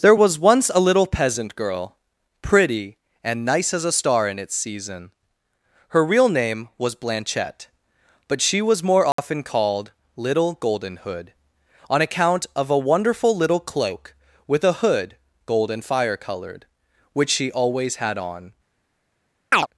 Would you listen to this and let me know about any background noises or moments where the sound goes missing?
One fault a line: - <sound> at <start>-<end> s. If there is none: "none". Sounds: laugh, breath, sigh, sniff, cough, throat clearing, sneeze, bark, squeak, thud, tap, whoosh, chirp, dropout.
- dropout at 9.1-9.2 s
- chirp at 19.5-19.7 s